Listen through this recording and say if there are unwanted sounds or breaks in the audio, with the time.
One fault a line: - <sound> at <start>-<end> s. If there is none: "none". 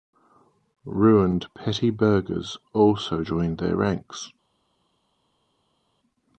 none